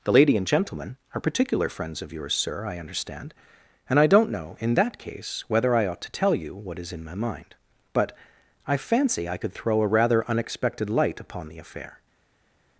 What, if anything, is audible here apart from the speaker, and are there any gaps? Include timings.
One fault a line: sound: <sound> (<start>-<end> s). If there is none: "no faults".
no faults